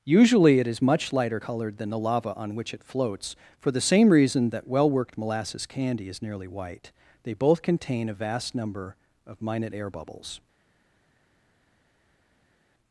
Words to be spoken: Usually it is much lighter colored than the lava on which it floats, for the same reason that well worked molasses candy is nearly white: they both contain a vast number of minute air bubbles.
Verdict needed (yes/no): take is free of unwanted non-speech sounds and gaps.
yes